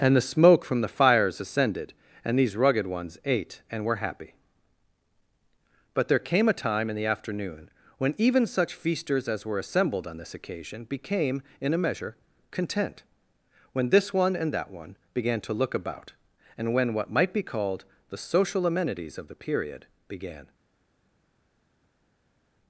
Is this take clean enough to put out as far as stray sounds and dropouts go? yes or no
yes